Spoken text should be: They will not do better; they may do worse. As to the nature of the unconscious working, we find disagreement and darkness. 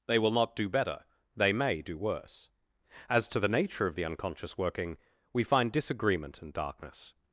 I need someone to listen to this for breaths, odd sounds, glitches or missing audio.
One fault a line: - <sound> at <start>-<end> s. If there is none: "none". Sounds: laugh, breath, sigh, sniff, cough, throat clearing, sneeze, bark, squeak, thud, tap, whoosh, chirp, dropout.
none